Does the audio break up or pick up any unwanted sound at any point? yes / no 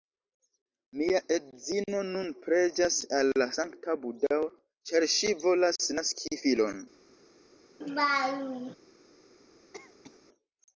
yes